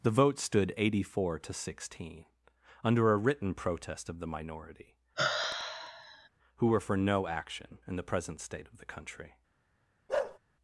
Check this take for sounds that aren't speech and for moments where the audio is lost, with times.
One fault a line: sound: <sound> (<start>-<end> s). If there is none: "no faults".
sound: sigh (5.2-6.3 s)
sound: bark (10.1-10.4 s)